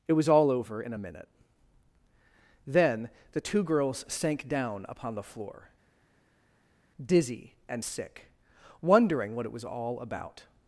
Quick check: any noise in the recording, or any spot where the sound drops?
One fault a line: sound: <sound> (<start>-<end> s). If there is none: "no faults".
no faults